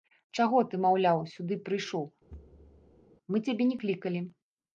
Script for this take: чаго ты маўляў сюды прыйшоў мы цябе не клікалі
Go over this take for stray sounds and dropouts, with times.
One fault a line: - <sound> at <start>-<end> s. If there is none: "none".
- thud at 2.3-3.1 s